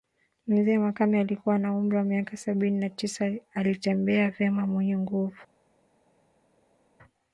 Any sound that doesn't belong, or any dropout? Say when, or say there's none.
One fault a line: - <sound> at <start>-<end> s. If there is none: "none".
none